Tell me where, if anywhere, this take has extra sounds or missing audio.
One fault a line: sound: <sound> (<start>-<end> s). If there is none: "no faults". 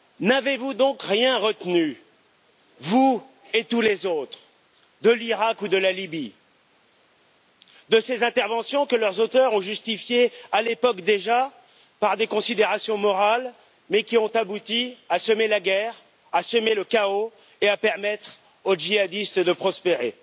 no faults